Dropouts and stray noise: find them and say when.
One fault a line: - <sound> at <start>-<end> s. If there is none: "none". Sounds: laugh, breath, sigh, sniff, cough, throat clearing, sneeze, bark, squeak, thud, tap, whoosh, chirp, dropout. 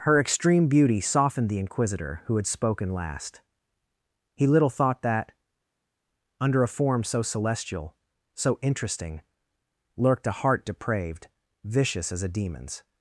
none